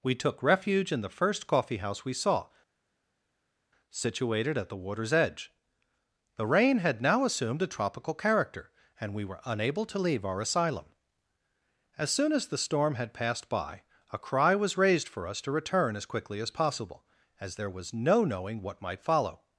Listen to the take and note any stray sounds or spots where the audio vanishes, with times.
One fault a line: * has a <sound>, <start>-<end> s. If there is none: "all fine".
all fine